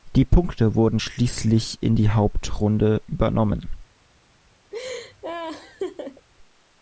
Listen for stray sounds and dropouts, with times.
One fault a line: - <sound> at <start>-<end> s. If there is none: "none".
- laugh at 4.7-6.3 s